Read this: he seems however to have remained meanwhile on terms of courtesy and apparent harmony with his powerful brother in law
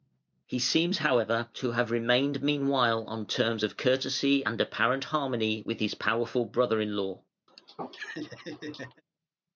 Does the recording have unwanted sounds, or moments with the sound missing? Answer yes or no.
yes